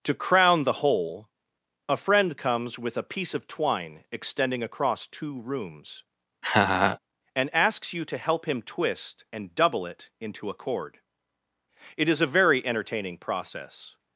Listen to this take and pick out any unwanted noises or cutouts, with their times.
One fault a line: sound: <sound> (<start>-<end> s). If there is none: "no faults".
sound: laugh (6.4-7.0 s)